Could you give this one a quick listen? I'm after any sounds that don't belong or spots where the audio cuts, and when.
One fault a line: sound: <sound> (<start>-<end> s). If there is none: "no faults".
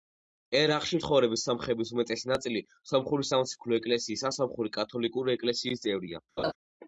sound: laugh (6.4-6.5 s)